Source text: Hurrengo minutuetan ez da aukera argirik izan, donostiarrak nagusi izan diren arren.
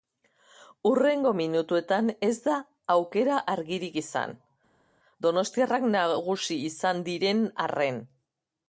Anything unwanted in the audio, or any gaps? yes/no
no